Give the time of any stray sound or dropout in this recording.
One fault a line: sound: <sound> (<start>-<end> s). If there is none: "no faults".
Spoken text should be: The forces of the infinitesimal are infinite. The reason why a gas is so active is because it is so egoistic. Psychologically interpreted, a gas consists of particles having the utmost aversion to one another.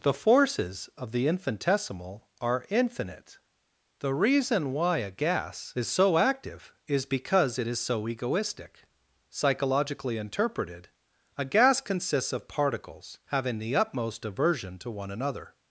no faults